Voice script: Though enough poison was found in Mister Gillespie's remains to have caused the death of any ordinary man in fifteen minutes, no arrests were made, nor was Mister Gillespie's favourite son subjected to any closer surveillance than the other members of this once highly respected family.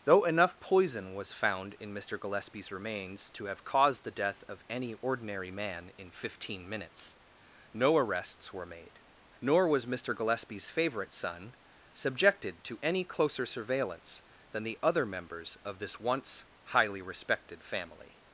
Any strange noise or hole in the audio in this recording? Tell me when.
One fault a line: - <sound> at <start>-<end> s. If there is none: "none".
none